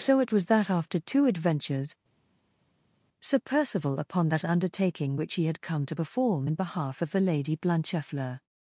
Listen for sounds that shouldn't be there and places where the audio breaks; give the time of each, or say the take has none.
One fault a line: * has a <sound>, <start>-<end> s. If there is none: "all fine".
all fine